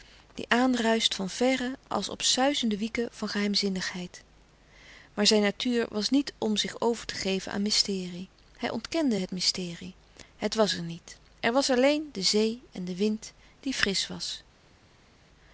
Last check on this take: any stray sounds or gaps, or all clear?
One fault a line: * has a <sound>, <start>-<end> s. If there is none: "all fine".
all fine